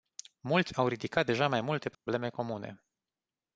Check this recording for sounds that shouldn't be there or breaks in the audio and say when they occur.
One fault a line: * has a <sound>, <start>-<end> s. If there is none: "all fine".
* has a dropout, 1.9-2.1 s